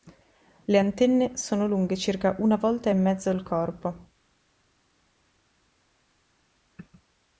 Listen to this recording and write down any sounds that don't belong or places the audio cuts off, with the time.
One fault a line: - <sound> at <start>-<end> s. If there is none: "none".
none